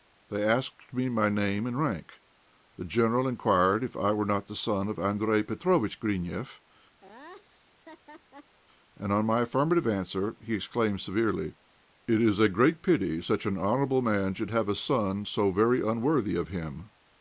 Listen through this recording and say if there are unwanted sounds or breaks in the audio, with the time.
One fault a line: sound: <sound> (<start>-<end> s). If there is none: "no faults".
sound: laugh (7.0-8.6 s)